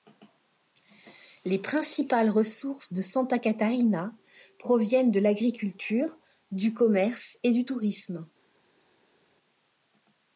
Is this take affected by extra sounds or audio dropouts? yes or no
no